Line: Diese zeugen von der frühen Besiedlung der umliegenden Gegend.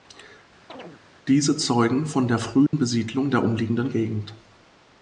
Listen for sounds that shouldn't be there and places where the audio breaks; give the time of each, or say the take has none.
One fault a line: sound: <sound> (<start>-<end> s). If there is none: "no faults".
sound: chirp (0.7-1.0 s)
sound: dropout (2.7-2.7 s)